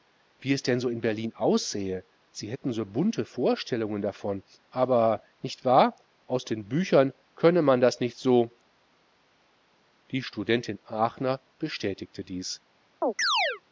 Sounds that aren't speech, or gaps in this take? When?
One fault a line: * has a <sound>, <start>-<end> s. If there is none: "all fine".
* has a chirp, 13.0-13.6 s